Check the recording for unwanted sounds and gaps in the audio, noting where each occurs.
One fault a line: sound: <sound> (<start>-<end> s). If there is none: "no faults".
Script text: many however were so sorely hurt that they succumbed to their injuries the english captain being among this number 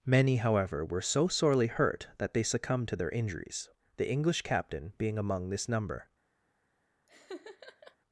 sound: laugh (7.1-8.0 s)